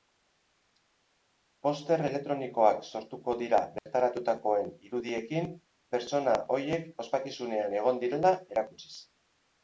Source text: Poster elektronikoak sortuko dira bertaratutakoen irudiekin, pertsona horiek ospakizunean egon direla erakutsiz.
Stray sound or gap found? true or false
true